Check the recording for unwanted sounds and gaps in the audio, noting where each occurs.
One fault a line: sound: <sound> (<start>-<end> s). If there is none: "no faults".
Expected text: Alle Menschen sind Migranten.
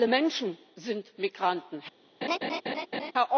sound: laugh (2.2-3.1 s)